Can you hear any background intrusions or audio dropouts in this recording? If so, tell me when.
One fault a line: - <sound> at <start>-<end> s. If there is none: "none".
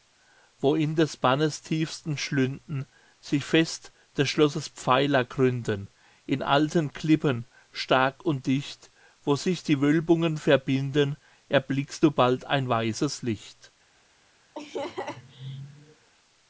- laugh at 14.5-16.1 s